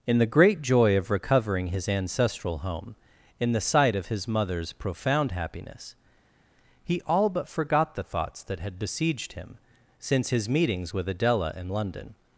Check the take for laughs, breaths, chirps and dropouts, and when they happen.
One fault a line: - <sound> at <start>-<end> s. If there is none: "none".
none